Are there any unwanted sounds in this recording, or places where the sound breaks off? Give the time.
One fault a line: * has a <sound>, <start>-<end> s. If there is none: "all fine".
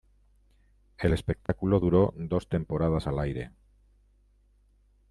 * has a dropout, 1.5-1.5 s